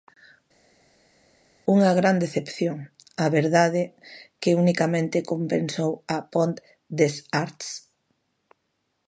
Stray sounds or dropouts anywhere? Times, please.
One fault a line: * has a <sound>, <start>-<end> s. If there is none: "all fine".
all fine